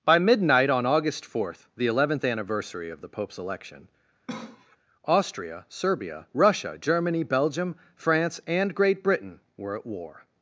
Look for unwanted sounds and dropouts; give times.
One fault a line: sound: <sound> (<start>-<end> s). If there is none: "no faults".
sound: cough (4.3-4.8 s)